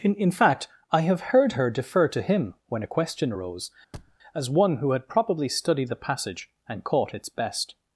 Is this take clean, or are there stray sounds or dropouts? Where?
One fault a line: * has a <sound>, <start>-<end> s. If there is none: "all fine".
* has a thud, 3.9-4.2 s